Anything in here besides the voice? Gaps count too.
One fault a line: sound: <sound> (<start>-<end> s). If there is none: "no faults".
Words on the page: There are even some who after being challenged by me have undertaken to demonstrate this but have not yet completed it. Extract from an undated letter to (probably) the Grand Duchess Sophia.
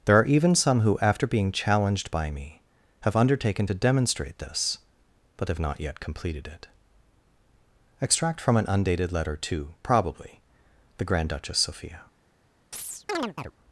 sound: chirp (12.7-13.5 s)